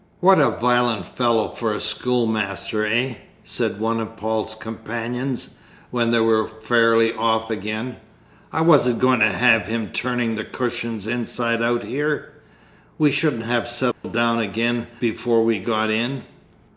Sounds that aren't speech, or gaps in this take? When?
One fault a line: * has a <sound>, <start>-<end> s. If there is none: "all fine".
* has a dropout, 13.9-14.0 s